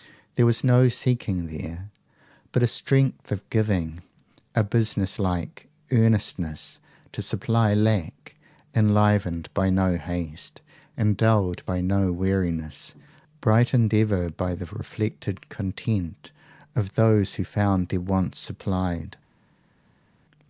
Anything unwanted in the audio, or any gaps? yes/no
no